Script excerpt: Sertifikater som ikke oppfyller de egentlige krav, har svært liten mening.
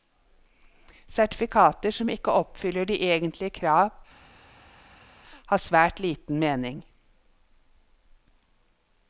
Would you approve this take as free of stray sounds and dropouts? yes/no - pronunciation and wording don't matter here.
yes